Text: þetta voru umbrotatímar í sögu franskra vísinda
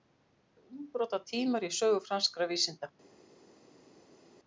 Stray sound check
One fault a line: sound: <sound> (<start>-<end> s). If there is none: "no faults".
no faults